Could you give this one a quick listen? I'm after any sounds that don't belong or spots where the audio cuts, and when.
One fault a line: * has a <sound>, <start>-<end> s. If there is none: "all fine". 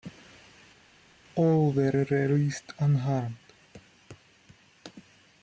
all fine